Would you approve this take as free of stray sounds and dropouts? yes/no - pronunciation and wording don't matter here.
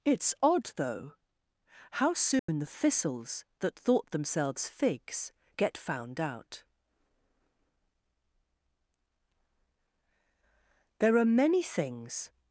no